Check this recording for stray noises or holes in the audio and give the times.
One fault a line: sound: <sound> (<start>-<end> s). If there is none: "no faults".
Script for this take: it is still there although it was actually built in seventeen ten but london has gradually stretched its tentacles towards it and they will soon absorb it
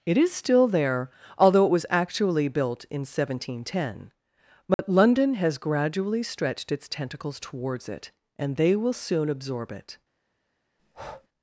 sound: dropout (4.7-4.8 s)
sound: breath (10.8-11.3 s)